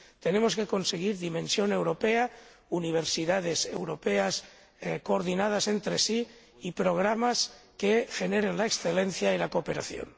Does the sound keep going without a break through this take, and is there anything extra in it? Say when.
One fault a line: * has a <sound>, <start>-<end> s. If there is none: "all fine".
all fine